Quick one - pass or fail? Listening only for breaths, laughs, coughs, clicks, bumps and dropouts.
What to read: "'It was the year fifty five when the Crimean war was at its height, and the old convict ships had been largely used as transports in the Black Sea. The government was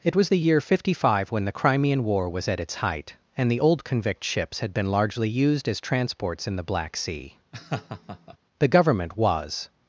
fail